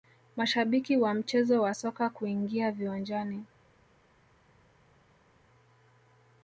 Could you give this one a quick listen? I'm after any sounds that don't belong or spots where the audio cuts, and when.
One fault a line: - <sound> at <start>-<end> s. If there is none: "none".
none